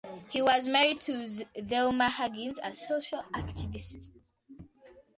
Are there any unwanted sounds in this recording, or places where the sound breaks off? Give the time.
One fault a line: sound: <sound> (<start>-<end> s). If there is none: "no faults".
no faults